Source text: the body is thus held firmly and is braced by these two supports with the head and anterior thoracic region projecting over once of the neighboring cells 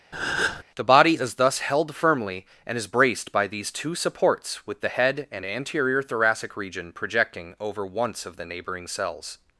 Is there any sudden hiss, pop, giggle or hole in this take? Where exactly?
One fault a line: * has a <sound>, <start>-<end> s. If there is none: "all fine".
* has a breath, 0.1-0.6 s